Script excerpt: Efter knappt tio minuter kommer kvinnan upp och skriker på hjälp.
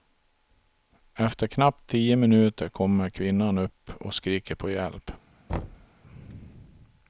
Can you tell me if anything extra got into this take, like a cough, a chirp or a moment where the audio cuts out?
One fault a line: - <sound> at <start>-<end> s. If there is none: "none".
- thud at 5.5-5.9 s